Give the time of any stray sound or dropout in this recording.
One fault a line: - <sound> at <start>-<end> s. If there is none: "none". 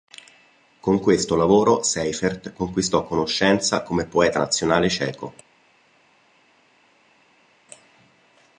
none